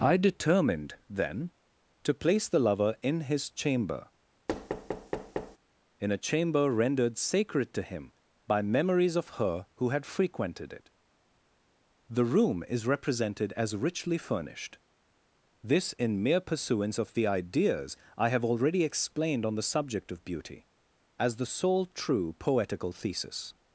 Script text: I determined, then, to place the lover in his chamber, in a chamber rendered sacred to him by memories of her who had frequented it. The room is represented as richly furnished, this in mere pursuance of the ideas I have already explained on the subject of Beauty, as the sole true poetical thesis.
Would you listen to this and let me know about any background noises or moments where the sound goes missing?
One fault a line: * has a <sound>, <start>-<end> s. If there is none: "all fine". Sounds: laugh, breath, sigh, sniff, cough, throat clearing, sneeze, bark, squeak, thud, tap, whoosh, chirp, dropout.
* has a thud, 4.5-5.6 s